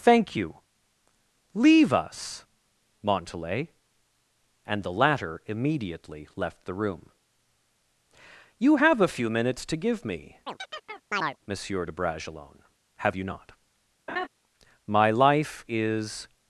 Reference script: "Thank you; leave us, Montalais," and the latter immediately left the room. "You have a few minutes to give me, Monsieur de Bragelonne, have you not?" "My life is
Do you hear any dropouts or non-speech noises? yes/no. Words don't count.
yes